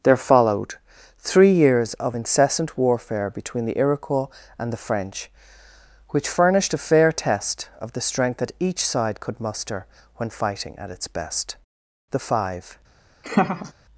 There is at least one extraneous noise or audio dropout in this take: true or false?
true